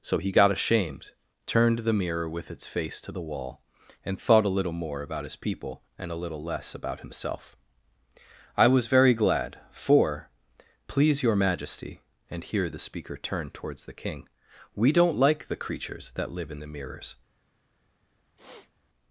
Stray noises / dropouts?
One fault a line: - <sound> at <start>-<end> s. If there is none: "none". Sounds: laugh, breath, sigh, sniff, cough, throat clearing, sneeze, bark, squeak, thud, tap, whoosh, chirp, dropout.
- sniff at 18.4-18.7 s